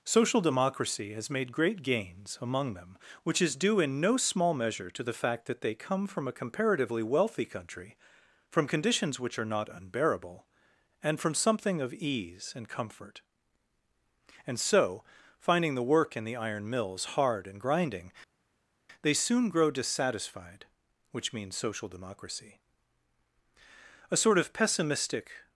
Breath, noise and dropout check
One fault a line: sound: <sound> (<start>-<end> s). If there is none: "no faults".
no faults